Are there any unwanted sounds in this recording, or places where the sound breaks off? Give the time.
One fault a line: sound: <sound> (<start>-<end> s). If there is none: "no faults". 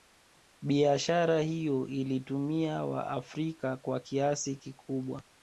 no faults